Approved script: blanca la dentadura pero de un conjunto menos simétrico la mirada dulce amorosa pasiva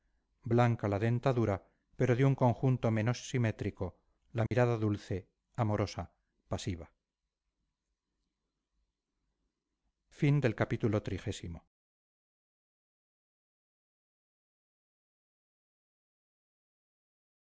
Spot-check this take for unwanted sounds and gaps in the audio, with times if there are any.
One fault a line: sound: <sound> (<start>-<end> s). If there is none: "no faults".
sound: dropout (4.5-4.5 s)